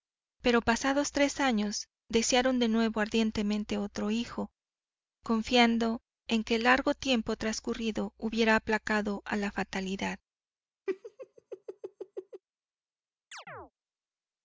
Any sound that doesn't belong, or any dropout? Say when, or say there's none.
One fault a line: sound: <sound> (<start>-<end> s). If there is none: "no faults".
sound: laugh (10.9-12.4 s)
sound: chirp (13.3-13.7 s)